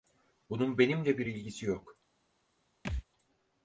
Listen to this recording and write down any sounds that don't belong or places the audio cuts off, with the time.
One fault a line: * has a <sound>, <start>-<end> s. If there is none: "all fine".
* has a thud, 2.8-3.0 s